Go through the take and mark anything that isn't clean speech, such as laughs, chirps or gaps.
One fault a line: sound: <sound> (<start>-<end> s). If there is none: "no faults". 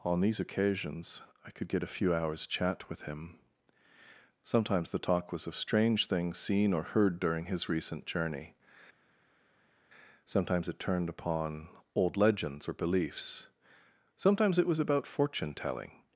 no faults